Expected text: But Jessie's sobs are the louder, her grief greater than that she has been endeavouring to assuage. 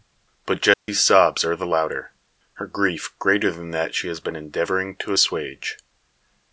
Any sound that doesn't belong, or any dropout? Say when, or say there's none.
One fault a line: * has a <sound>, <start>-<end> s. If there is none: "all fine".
* has a dropout, 0.7-0.9 s